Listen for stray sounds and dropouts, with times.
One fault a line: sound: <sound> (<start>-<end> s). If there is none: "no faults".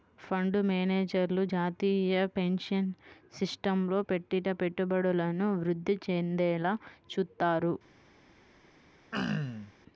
sound: throat clearing (9.1-9.7 s)